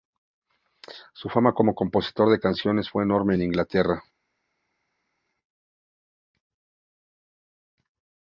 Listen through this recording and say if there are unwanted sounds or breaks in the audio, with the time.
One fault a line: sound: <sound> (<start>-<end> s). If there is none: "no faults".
no faults